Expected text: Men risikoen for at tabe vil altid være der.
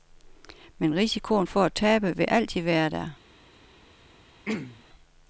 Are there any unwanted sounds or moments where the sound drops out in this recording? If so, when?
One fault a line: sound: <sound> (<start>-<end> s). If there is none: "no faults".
sound: throat clearing (4.5-4.8 s)